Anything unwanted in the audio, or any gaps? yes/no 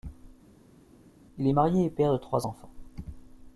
no